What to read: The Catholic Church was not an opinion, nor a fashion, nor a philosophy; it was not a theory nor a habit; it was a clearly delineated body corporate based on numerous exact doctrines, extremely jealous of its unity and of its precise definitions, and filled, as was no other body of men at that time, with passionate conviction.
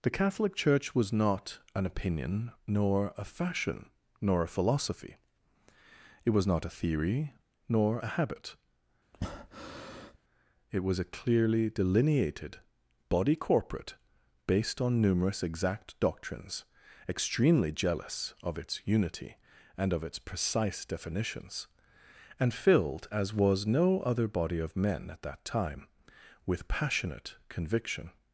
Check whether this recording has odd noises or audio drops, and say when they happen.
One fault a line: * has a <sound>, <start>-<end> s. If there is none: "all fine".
* has a breath, 9.1-10.2 s